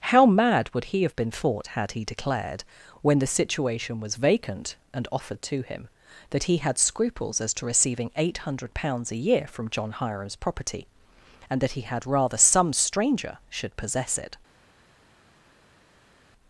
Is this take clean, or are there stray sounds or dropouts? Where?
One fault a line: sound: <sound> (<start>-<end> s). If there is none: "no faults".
no faults